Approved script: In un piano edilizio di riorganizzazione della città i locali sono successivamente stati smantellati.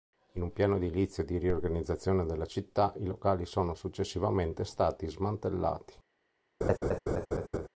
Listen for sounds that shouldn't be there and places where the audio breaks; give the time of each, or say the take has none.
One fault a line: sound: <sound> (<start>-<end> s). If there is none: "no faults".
sound: laugh (6.6-7.7 s)